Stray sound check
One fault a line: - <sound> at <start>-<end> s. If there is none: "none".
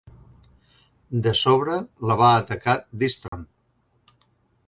- dropout at 3.3-3.3 s